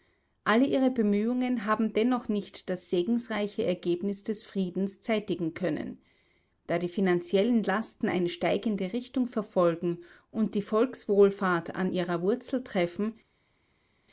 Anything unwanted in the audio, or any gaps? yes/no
no